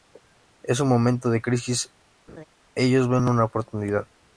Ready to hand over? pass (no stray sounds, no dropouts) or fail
fail